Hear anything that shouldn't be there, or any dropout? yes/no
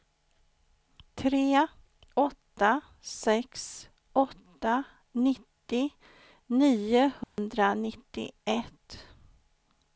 yes